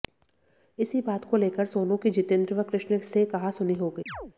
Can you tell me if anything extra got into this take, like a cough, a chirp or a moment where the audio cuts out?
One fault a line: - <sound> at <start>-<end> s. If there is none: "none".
- chirp at 4.1-4.3 s